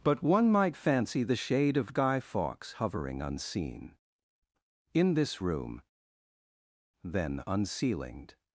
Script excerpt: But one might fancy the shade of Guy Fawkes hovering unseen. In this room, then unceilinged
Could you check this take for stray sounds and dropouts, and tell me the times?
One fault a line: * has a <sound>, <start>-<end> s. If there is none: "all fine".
all fine